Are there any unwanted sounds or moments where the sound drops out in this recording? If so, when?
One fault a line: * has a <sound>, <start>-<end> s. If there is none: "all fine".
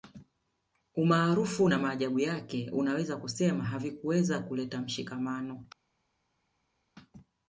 all fine